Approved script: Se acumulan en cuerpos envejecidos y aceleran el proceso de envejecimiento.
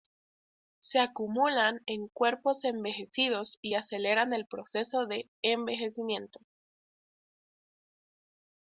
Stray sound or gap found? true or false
false